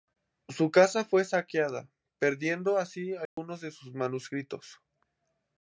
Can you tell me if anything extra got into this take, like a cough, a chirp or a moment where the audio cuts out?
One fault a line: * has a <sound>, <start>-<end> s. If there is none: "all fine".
* has a dropout, 3.3-3.4 s